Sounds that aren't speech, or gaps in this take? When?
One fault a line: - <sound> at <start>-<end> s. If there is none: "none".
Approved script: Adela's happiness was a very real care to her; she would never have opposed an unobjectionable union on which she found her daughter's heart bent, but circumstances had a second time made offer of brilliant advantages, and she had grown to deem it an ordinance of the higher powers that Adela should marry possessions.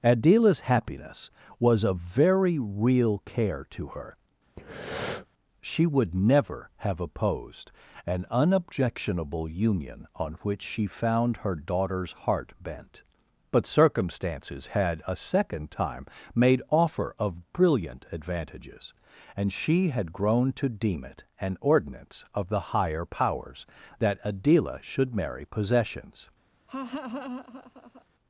- breath at 4.6-5.3 s
- laugh at 26.7-28.1 s